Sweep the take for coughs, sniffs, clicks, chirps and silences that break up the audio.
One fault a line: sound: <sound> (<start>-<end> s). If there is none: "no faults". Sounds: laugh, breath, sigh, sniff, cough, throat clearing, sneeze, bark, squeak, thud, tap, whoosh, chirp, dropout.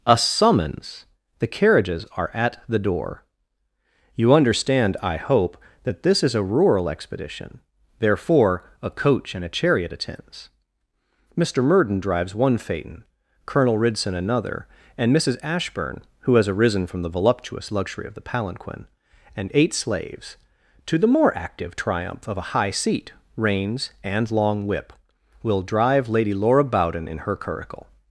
no faults